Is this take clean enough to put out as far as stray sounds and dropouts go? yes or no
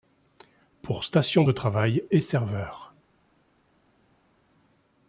yes